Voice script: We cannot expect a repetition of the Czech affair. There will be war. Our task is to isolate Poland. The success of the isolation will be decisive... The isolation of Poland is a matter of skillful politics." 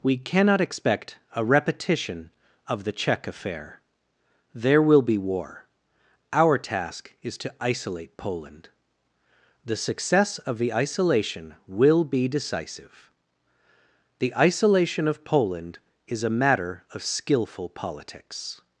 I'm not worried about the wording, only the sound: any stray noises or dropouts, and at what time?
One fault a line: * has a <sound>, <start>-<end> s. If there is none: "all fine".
all fine